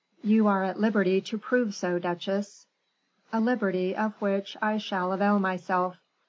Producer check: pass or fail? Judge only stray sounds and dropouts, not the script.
pass